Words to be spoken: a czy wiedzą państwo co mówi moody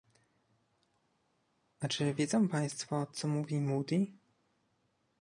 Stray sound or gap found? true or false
false